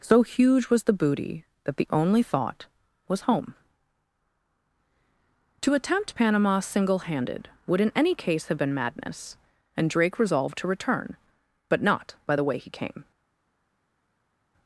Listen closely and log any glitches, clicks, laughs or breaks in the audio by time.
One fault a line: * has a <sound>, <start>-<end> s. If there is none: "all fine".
all fine